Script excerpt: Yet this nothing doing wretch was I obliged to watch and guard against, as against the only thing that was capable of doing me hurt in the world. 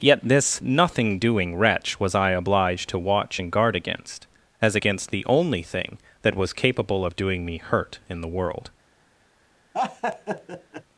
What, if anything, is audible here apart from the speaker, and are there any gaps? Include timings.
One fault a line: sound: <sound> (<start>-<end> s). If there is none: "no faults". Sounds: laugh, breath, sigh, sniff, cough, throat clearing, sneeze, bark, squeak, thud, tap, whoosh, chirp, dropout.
sound: laugh (9.7-10.8 s)